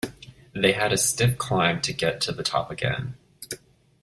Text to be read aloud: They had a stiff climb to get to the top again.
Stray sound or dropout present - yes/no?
no